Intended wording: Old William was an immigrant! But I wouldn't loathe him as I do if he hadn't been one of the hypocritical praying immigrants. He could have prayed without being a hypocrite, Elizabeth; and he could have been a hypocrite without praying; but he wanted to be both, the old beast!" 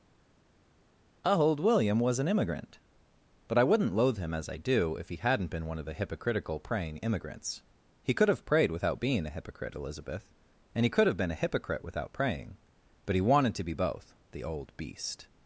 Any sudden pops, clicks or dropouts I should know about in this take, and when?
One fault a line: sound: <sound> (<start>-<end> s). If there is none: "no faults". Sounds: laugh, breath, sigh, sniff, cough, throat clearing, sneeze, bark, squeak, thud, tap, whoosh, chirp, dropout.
no faults